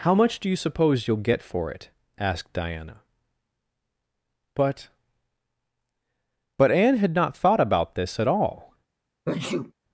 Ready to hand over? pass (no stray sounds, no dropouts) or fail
fail